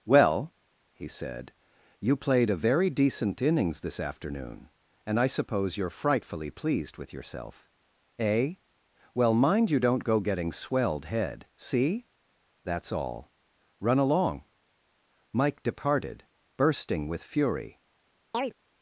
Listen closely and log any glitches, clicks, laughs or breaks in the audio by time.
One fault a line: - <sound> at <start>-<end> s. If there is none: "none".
- chirp at 18.3-18.5 s